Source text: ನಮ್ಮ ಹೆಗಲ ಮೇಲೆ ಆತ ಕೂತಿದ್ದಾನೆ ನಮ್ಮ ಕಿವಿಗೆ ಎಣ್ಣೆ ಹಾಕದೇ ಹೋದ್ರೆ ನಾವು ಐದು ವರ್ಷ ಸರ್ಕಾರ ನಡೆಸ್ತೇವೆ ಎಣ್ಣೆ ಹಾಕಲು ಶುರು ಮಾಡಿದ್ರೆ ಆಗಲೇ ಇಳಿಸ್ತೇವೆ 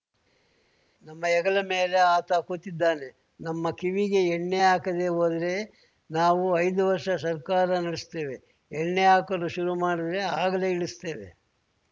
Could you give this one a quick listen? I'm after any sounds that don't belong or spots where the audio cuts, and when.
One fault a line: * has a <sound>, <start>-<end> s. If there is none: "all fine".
all fine